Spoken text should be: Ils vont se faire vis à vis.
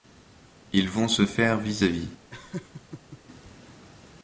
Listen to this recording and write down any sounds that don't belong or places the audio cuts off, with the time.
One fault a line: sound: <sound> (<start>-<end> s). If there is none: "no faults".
sound: laugh (2.3-3.2 s)